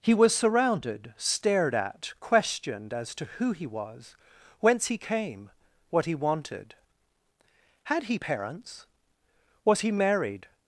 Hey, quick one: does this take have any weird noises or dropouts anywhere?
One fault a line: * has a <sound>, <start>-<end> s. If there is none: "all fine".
all fine